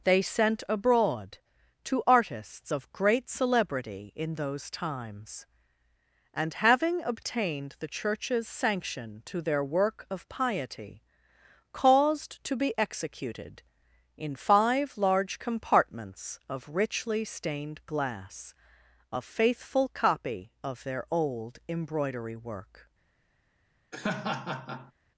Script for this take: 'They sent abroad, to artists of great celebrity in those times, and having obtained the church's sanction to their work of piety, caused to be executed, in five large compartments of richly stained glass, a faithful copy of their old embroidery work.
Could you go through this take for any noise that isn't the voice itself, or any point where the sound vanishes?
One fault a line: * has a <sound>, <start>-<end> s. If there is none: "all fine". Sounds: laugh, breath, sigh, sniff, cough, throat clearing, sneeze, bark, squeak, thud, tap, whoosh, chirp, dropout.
* has a laugh, 23.9-24.9 s